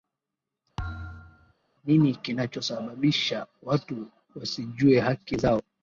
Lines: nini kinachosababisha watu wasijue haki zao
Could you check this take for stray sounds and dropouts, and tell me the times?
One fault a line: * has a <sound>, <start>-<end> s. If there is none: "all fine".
* has a thud, 0.8-1.5 s